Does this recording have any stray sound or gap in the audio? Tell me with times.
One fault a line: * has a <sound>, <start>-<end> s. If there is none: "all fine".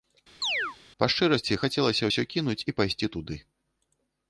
* has a chirp, 0.4-0.8 s